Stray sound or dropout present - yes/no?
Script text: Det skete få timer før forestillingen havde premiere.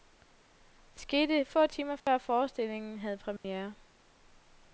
yes